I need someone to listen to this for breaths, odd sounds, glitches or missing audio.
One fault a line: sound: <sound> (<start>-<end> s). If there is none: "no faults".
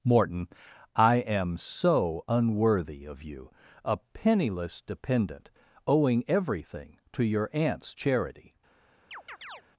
sound: chirp (9.1-9.6 s)